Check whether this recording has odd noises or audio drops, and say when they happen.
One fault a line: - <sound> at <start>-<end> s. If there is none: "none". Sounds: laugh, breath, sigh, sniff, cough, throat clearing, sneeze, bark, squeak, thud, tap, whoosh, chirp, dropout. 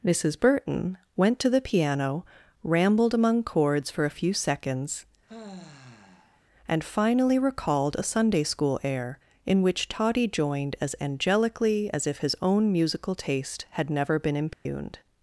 - sigh at 5.3-6.4 s
- dropout at 14.5-14.7 s